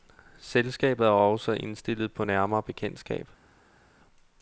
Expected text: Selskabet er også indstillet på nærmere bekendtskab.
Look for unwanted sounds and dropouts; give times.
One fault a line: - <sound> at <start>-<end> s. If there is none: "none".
none